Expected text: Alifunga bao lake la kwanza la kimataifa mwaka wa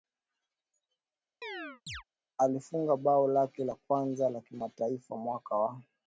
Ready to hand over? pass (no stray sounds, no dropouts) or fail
fail